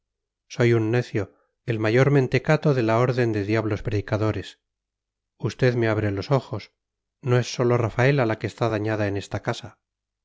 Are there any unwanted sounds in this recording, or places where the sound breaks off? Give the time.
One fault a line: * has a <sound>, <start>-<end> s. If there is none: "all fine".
all fine